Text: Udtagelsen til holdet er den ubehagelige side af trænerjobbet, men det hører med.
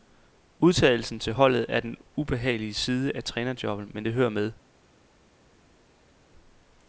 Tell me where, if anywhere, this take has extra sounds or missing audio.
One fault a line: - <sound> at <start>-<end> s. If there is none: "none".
none